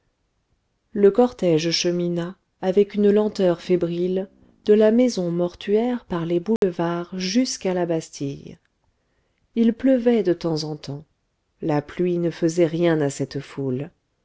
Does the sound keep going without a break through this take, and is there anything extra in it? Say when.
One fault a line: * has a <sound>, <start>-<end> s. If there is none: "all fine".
* has a dropout, 6.6-6.6 s